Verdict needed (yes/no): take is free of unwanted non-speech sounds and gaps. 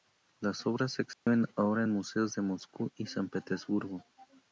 no